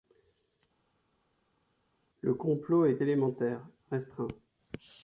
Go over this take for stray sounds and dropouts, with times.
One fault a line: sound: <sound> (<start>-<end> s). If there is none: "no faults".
no faults